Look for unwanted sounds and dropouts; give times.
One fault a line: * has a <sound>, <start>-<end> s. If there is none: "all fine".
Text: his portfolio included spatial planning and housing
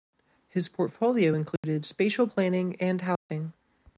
* has a dropout, 1.6-1.6 s
* has a dropout, 3.2-3.3 s